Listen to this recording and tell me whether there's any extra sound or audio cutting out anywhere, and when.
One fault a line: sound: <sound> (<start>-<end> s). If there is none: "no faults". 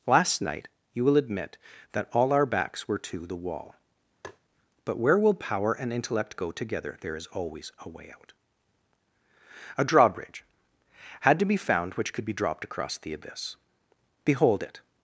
sound: tap (4.2-4.4 s)